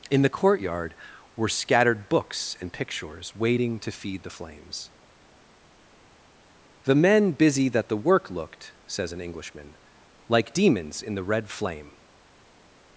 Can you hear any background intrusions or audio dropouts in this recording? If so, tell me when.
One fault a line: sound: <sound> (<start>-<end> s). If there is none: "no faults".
no faults